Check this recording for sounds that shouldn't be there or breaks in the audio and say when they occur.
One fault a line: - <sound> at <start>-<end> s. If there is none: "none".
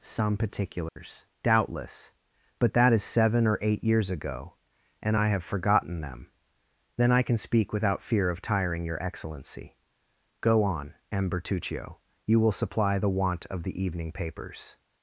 - dropout at 0.9-1.0 s